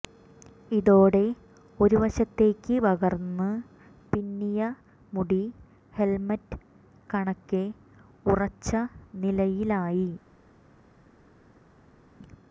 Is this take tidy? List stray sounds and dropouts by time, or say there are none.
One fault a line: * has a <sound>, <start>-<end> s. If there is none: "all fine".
all fine